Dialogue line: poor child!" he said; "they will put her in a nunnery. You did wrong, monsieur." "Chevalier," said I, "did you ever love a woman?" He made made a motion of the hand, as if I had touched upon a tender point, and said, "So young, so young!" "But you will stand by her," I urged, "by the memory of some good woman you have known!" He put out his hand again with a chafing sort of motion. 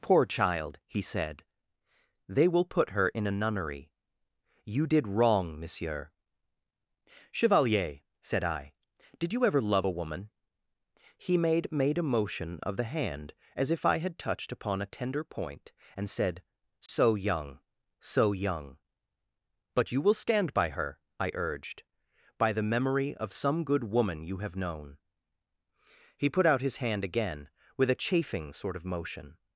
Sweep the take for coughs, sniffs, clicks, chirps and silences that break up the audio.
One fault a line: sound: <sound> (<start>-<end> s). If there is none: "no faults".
sound: dropout (16.9-16.9 s)